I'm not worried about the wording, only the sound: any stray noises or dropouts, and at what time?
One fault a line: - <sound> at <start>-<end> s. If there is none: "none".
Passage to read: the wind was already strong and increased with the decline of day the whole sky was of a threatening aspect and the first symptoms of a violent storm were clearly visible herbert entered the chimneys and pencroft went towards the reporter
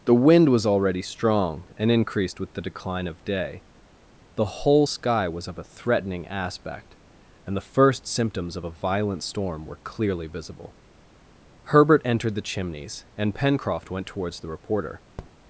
- tap at 15.2-15.3 s